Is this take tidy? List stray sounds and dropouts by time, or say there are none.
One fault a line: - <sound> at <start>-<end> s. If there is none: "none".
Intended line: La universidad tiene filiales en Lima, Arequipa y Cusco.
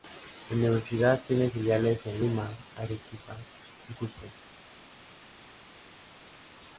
none